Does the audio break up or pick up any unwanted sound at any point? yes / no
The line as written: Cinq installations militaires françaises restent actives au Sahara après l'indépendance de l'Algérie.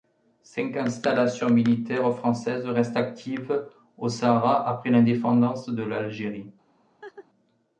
yes